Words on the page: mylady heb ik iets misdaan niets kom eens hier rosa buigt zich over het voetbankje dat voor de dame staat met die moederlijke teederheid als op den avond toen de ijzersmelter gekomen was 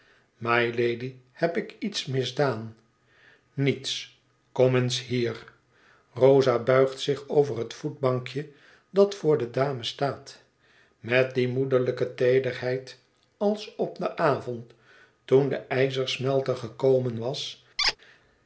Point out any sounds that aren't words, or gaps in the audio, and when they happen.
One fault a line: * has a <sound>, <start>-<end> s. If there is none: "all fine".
* has a squeak, 17.8-18.0 s